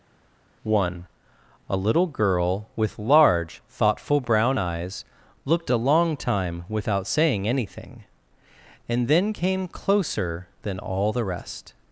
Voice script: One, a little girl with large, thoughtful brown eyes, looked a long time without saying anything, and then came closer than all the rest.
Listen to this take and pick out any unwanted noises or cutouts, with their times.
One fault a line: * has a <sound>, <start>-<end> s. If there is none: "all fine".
all fine